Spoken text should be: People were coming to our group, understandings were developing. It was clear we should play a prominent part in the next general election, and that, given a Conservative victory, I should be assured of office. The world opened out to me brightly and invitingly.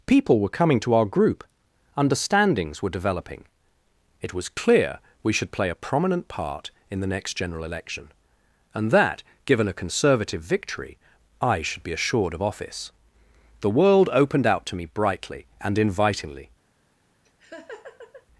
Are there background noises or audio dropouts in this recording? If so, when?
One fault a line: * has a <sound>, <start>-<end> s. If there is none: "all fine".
* has a laugh, 17.2-18.3 s